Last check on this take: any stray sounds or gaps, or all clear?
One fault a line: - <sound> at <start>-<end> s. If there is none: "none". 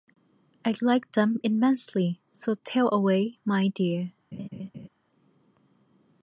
- laugh at 4.3-4.9 s